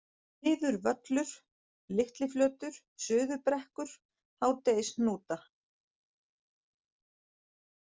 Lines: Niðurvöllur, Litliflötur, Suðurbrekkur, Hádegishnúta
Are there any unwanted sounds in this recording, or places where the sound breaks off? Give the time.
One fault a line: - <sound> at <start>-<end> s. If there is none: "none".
none